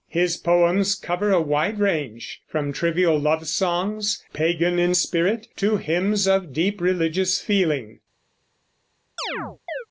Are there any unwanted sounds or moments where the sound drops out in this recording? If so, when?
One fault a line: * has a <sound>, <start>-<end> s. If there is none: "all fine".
* has a chirp, 9.2-9.9 s